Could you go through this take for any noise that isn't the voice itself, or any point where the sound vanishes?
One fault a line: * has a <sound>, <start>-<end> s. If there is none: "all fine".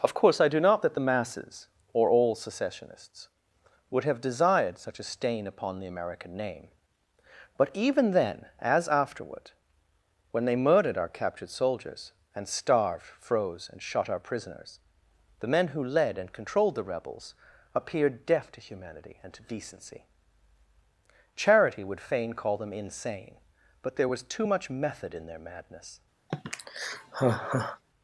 * has a sigh, 26.3-27.8 s